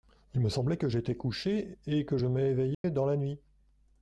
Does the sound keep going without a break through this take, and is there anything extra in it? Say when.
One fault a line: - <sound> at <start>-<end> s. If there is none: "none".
- dropout at 2.7-2.8 s